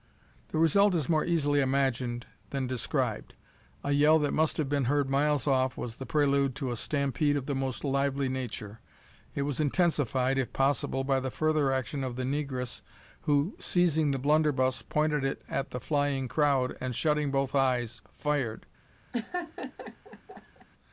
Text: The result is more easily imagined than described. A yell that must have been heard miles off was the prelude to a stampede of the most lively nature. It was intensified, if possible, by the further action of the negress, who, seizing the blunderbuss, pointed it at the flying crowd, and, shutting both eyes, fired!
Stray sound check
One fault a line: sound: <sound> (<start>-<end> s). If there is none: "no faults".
sound: laugh (19.1-20.7 s)